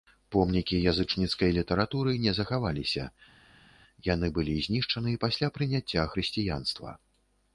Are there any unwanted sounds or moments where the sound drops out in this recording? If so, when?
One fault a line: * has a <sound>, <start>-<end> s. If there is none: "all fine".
all fine